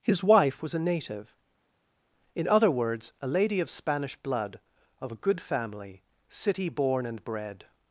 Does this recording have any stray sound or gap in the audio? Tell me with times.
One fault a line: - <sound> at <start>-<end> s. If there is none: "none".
none